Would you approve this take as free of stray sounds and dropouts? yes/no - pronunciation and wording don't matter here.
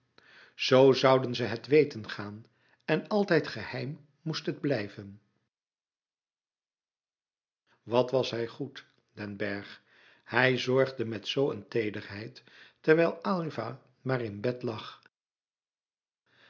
yes